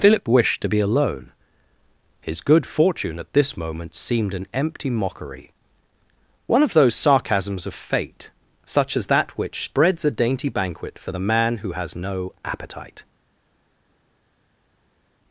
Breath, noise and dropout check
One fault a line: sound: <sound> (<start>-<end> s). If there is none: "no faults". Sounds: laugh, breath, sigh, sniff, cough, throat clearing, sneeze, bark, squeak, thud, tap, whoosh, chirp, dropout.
no faults